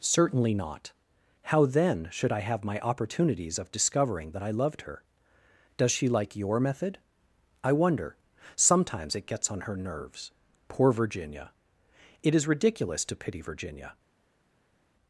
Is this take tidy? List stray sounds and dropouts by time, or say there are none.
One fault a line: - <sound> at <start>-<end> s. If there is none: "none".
none